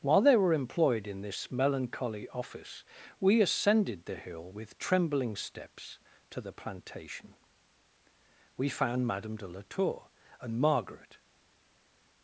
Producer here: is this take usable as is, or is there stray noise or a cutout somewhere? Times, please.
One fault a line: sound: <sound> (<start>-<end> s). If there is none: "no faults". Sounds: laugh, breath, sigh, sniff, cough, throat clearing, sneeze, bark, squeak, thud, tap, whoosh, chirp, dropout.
no faults